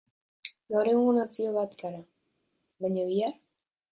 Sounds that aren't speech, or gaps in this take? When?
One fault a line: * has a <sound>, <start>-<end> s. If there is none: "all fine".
all fine